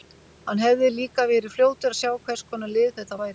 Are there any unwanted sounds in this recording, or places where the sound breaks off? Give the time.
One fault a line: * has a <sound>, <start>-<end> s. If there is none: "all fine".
all fine